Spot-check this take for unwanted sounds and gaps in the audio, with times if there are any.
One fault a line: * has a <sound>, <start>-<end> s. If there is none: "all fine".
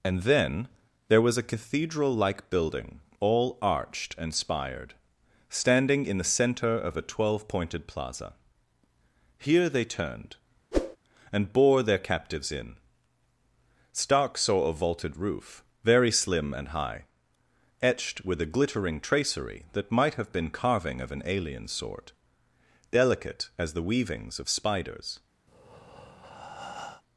* has a whoosh, 10.7-11.0 s
* has a breath, 25.5-27.0 s